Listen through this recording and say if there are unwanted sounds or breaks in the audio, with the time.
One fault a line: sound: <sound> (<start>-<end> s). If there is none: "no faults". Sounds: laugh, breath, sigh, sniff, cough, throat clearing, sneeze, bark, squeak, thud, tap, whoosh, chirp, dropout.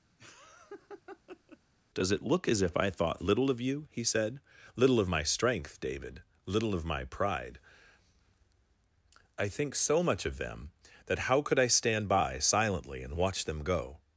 sound: laugh (0.2-1.6 s)